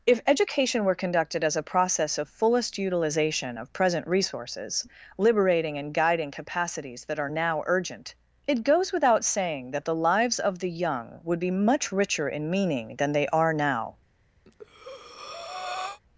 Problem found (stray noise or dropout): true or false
true